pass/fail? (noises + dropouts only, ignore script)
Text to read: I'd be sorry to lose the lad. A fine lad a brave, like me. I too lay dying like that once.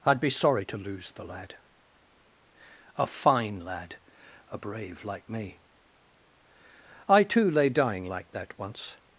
pass